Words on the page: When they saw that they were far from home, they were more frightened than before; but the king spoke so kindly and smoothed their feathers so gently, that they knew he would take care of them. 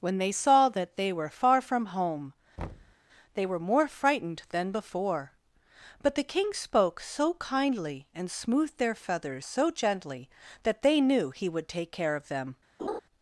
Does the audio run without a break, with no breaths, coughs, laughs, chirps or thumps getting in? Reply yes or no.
no